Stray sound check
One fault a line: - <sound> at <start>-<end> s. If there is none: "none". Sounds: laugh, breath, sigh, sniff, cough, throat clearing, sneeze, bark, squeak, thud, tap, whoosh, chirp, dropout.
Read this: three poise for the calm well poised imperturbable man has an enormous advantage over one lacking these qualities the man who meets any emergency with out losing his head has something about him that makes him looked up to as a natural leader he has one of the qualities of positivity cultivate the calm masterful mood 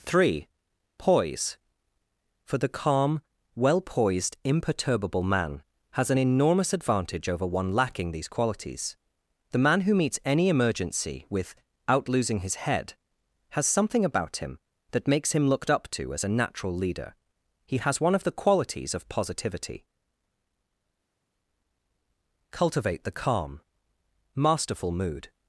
none